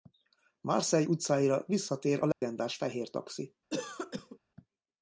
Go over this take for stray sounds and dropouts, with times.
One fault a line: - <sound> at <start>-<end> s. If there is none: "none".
- dropout at 2.3-2.4 s
- cough at 3.7-4.4 s